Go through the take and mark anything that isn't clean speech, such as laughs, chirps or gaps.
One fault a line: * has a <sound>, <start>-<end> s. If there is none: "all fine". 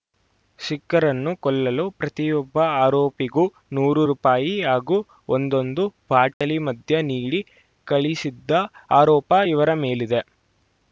* has a dropout, 6.3-6.4 s